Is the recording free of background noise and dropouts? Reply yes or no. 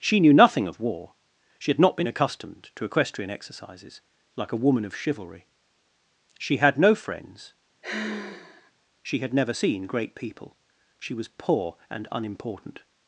no